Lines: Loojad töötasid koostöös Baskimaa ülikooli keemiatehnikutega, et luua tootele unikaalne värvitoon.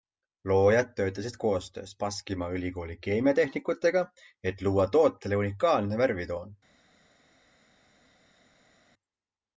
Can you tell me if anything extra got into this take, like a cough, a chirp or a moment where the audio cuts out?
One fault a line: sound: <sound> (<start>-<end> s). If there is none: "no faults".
no faults